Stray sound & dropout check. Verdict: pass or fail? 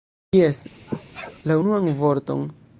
fail